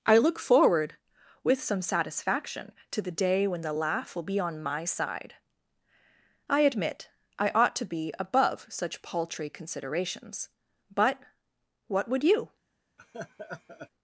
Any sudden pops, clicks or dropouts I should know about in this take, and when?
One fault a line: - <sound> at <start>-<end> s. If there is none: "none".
- laugh at 13.0-13.9 s